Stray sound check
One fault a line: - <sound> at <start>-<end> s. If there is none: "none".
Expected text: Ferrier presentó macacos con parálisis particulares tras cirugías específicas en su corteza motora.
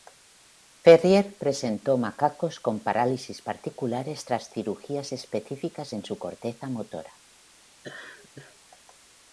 - laugh at 7.8-8.6 s